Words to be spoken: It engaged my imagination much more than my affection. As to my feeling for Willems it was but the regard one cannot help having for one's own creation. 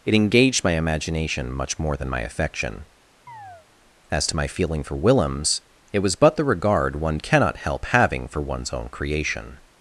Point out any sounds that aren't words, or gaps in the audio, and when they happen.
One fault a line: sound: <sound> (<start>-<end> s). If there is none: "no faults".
sound: chirp (3.3-3.7 s)